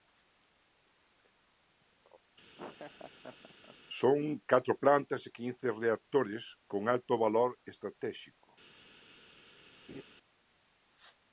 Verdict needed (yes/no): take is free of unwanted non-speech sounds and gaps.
no